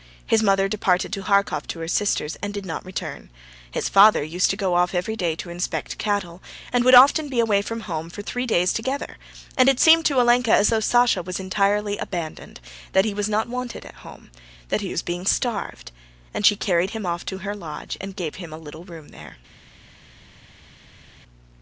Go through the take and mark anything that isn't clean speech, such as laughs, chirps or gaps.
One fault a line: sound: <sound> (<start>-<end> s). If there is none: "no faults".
no faults